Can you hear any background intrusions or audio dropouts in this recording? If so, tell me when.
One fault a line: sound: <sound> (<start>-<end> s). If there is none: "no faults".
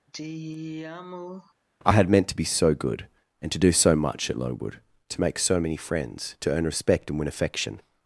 sound: sigh (0.1-1.5 s)